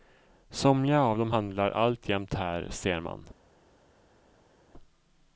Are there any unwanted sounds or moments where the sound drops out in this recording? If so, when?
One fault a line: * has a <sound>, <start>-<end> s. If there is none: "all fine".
all fine